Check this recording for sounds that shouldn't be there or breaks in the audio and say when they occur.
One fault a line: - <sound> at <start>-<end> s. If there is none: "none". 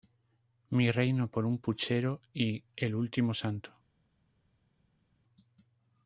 none